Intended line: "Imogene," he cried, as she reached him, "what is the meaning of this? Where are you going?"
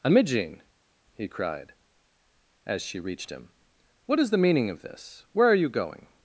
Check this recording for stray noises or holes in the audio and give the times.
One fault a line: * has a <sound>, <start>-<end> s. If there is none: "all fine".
all fine